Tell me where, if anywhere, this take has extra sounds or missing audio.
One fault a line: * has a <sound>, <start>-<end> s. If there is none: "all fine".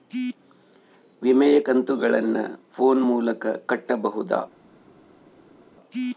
all fine